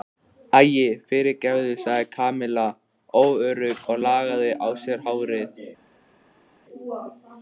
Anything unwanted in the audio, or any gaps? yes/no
no